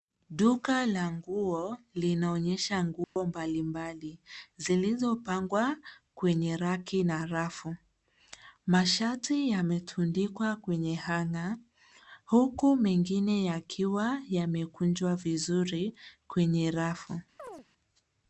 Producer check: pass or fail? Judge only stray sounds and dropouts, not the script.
fail